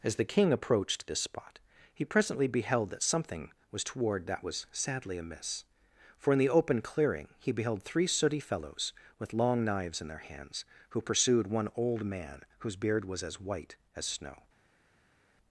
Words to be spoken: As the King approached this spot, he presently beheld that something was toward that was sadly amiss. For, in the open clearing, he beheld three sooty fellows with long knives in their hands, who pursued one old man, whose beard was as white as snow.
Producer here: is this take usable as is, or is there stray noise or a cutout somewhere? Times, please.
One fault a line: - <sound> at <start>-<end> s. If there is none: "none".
none